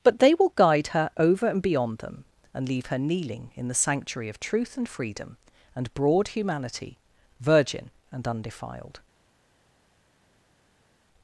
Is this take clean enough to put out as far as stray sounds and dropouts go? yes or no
yes